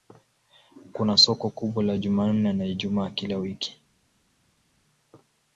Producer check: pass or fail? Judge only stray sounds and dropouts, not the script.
pass